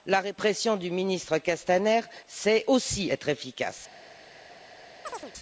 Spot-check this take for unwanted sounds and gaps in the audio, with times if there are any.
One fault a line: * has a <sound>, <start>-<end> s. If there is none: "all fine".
* has a chirp, 5.0-5.3 s